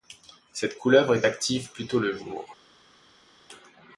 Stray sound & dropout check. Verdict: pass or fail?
pass